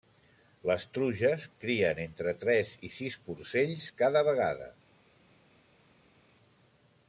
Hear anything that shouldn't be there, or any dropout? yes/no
no